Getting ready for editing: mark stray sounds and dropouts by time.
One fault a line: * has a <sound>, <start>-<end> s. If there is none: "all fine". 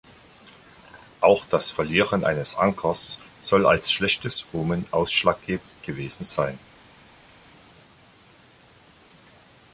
all fine